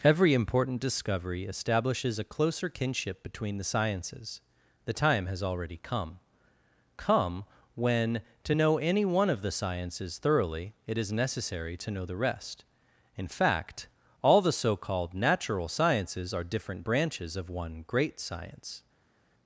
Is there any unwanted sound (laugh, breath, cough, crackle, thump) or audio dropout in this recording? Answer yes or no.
no